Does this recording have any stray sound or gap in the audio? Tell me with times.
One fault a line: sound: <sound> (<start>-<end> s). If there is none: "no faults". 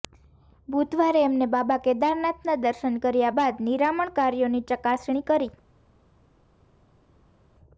no faults